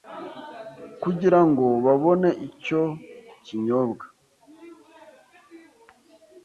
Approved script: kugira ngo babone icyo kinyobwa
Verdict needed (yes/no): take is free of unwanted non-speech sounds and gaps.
yes